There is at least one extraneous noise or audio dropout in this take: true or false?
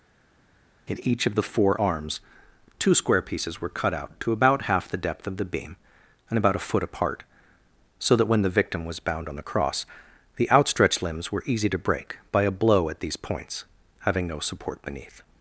false